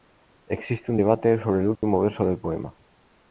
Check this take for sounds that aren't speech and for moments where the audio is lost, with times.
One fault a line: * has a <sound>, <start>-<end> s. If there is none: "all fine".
* has a dropout, 1.8-1.8 s